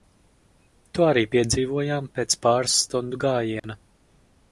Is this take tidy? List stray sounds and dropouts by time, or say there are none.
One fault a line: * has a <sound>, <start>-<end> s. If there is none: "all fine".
* has a dropout, 3.6-3.6 s